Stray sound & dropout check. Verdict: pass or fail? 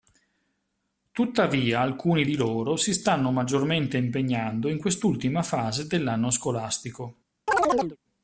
fail